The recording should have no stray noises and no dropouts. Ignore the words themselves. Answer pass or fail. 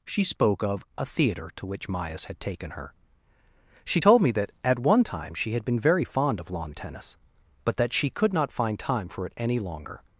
pass